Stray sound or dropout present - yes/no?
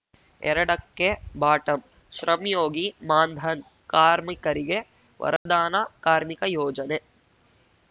yes